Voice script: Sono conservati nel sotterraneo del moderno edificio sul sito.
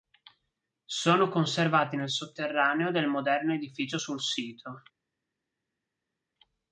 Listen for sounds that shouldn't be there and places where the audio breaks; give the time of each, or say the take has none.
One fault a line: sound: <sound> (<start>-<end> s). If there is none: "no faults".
no faults